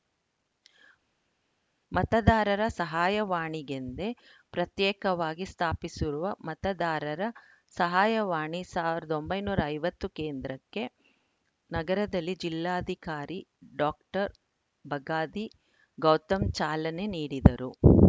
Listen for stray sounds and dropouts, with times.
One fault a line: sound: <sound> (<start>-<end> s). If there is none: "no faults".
no faults